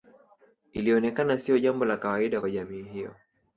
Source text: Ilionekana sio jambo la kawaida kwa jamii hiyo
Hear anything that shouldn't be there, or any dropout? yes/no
no